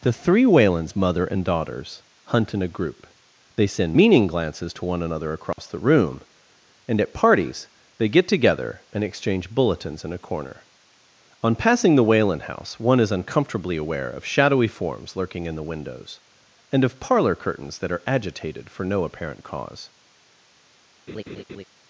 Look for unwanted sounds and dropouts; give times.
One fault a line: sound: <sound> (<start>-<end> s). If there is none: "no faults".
sound: dropout (5.5-5.6 s)
sound: laugh (21.1-21.6 s)